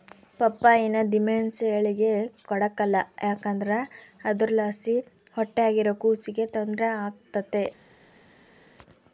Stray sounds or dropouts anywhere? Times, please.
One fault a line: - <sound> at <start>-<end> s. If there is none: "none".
none